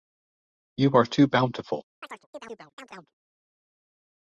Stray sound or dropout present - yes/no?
yes